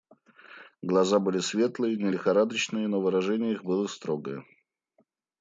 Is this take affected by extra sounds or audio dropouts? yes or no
no